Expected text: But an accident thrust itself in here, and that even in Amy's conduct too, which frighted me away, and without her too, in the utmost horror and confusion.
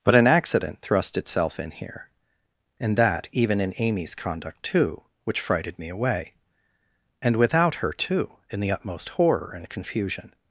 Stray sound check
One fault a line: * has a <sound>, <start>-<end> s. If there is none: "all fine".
all fine